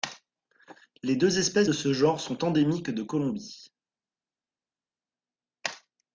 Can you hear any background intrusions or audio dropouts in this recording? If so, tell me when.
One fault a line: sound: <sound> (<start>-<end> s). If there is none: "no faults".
no faults